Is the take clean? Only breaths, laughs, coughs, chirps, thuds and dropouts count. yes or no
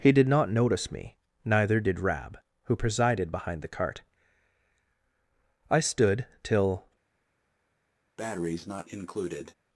no